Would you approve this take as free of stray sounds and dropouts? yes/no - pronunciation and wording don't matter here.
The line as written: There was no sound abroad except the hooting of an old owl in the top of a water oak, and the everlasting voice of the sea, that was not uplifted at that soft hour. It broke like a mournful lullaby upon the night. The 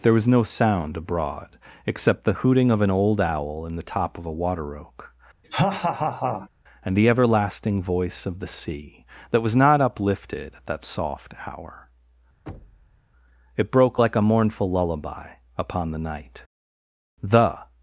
no